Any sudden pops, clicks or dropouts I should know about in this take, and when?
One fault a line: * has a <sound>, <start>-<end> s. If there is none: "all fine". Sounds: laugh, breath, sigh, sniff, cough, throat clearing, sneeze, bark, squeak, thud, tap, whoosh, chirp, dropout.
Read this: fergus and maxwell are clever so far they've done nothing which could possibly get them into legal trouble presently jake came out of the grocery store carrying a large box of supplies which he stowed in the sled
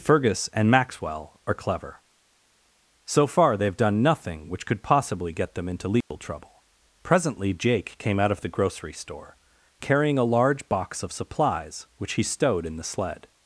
* has a dropout, 6.0-6.1 s